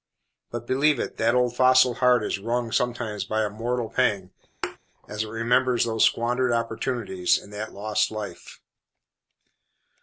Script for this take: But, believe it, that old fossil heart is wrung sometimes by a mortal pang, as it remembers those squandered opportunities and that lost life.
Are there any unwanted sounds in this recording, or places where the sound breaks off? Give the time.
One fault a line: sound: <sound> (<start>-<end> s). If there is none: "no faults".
sound: thud (4.6-4.8 s)